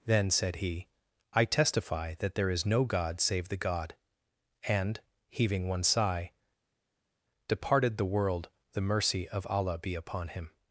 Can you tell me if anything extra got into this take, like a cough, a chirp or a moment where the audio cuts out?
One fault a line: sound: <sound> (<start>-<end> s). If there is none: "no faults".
no faults